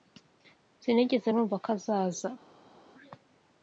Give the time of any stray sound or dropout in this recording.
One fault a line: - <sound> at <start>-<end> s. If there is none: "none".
none